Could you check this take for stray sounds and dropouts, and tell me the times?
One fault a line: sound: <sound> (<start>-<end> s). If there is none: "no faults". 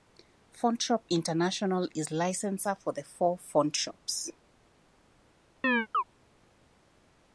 sound: chirp (5.6-6.0 s)